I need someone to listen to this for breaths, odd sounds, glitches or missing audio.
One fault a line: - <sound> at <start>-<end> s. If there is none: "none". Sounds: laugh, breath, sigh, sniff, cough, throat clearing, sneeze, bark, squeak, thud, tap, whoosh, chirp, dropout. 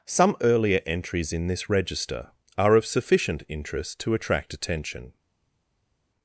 none